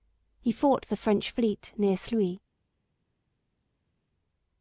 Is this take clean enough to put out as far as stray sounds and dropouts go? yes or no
yes